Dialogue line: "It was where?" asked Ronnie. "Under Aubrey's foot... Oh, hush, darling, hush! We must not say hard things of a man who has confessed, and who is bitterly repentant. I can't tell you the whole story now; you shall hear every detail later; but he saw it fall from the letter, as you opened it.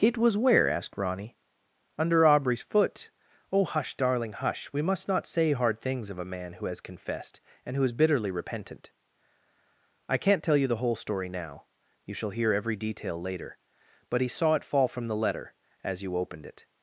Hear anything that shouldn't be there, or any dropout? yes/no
no